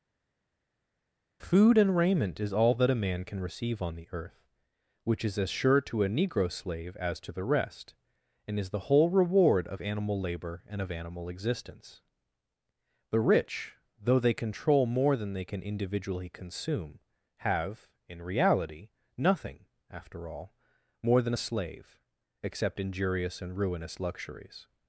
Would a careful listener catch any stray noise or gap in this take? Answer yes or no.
no